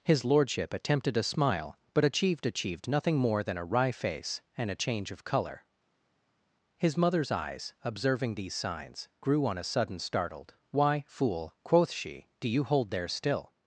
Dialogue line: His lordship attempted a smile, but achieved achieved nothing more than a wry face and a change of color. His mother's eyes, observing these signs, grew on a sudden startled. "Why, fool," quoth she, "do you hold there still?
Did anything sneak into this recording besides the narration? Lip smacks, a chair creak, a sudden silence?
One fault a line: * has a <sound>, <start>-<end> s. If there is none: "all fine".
all fine